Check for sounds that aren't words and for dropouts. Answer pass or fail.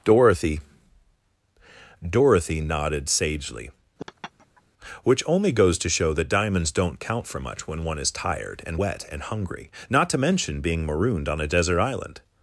fail